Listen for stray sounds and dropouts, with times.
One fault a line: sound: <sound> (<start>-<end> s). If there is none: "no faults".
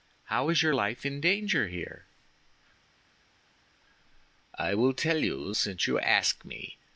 no faults